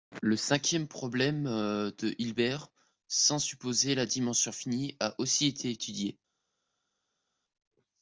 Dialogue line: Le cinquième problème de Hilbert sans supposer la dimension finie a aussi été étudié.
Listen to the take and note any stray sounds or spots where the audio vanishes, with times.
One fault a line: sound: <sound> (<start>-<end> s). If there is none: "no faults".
no faults